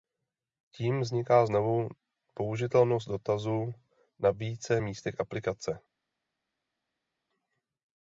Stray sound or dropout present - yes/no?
no